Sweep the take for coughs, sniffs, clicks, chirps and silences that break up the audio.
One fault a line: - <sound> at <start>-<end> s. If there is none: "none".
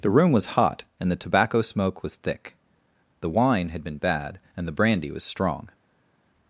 none